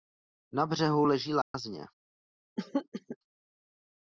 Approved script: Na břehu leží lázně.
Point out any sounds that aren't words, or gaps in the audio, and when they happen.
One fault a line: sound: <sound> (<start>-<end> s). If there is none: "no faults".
sound: dropout (1.4-1.5 s)
sound: throat clearing (2.6-3.2 s)